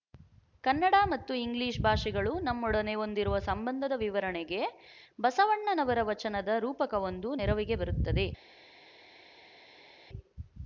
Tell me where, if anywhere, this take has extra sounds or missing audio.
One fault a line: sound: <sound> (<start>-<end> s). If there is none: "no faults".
no faults